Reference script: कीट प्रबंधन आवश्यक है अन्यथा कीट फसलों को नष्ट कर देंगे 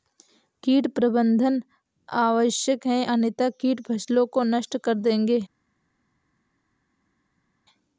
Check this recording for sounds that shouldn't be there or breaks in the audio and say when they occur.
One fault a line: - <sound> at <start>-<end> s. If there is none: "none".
none